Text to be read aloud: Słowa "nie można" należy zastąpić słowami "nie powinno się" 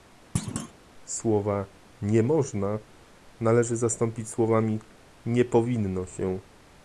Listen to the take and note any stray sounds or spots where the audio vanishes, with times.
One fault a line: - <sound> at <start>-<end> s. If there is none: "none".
- thud at 0.4-0.7 s